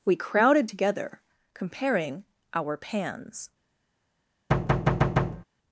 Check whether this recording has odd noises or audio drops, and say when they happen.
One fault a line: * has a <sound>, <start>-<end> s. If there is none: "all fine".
* has a thud, 4.5-5.4 s